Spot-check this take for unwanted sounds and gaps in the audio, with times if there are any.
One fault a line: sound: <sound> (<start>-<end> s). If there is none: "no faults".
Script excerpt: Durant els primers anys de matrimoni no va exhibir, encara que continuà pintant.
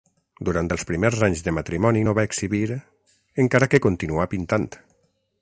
no faults